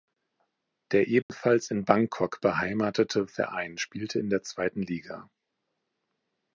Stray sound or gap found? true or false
true